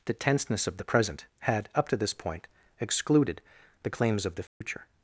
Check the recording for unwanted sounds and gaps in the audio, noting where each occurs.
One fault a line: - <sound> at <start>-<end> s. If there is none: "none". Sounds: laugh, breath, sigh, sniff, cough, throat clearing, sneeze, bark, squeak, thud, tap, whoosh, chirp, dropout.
- dropout at 4.5-4.6 s